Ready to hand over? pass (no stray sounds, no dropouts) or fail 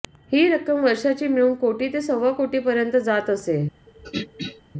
fail